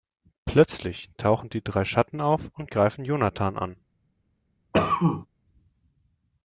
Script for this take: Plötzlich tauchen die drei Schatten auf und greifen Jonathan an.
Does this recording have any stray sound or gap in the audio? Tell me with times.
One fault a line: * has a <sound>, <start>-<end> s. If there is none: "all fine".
* has a cough, 4.7-5.3 s